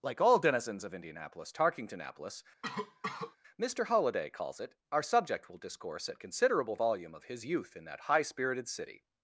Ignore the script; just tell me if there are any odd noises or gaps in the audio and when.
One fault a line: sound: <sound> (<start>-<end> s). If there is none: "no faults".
sound: cough (2.6-3.4 s)